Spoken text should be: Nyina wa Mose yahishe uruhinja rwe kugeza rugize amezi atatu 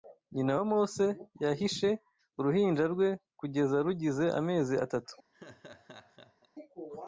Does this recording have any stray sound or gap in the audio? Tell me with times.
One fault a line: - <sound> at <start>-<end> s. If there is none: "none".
- laugh at 5.3-6.5 s